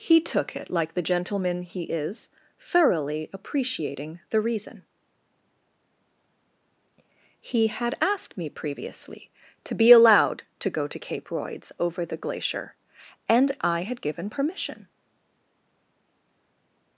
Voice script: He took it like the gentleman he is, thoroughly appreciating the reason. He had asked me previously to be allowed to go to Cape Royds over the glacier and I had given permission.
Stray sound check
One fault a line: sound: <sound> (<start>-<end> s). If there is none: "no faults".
no faults